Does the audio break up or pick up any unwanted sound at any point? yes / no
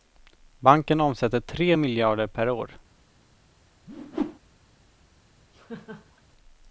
yes